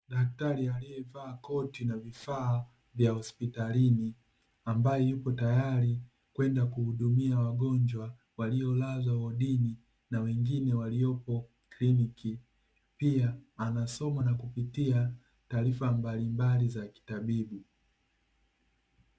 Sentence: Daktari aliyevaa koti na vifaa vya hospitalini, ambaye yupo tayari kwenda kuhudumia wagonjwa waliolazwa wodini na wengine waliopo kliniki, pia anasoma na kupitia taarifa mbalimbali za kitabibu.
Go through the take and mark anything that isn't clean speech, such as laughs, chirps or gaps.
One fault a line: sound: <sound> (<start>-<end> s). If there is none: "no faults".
no faults